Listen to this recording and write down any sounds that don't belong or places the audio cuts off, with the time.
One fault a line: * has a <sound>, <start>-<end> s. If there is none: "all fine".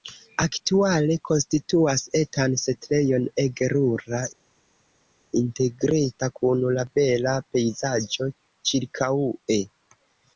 all fine